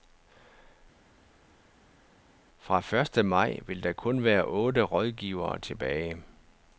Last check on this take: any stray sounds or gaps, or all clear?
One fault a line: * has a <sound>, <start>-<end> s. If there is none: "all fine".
all fine